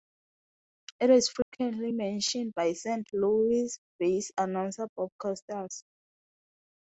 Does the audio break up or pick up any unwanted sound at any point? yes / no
yes